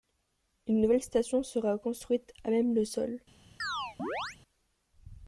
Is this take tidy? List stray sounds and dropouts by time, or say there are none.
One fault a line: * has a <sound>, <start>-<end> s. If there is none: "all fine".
* has a chirp, 3.6-4.4 s